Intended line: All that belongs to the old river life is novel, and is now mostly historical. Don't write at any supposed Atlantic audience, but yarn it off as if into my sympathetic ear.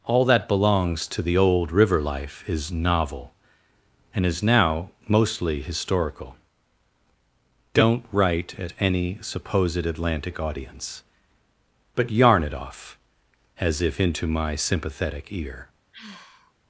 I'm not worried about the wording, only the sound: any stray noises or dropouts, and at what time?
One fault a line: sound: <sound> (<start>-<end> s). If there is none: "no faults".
sound: sigh (15.9-16.5 s)